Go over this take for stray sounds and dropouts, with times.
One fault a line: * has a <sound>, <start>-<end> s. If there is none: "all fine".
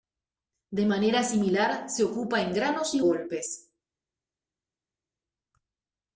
all fine